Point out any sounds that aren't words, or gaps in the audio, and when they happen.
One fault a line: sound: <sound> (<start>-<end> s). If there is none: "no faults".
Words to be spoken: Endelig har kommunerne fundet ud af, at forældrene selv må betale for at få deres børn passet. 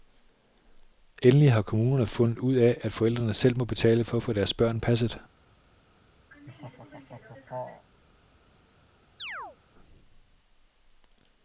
sound: laugh (6.3-7.9 s)
sound: chirp (9.2-9.6 s)